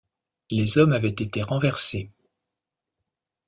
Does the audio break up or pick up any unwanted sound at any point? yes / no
no